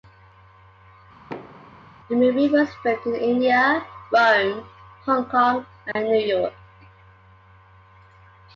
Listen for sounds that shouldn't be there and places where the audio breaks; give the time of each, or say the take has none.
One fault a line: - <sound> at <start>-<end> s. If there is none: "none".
- thud at 1.3-1.9 s
- dropout at 5.9-6.0 s